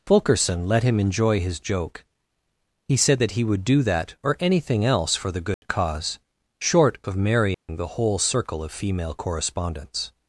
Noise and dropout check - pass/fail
fail